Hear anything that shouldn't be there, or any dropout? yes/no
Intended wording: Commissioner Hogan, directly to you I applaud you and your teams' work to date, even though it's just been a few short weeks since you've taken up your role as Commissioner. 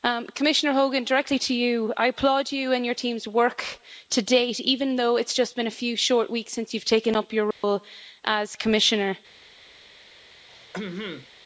yes